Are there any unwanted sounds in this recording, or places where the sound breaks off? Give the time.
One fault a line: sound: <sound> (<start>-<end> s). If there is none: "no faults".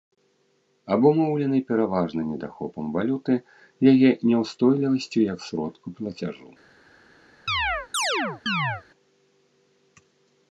sound: chirp (7.5-8.8 s)